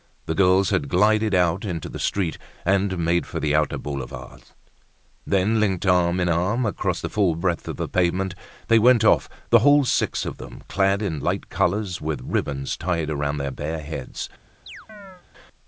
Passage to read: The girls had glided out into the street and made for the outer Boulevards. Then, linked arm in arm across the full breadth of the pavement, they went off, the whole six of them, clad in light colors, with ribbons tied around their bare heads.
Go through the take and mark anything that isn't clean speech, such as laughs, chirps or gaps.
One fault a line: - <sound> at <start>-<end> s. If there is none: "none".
- chirp at 14.7-15.2 s